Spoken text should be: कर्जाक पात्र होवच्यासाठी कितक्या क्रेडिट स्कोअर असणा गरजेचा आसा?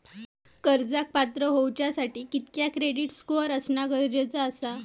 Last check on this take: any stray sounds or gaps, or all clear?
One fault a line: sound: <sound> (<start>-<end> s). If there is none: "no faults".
no faults